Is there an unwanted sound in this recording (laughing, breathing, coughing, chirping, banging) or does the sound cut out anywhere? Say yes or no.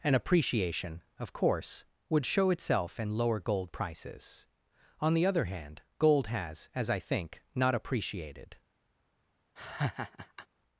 yes